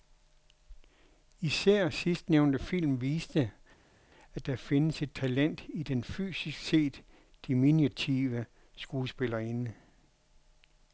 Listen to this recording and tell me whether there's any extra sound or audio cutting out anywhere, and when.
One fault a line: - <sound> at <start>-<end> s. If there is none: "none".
none